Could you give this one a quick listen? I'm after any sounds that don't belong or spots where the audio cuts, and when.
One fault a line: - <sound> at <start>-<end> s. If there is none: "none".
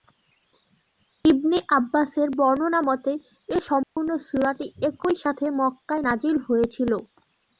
- dropout at 3.8-4.0 s